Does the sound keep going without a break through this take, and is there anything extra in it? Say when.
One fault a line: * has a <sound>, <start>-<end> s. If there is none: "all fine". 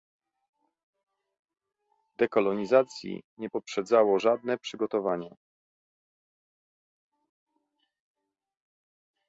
all fine